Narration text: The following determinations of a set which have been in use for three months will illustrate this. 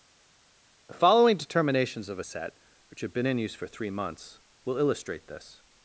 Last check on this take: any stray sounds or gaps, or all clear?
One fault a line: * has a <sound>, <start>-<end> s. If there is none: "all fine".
all fine